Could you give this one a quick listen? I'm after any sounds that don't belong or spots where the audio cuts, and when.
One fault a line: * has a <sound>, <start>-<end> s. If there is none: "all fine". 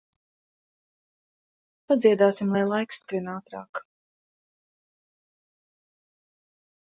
all fine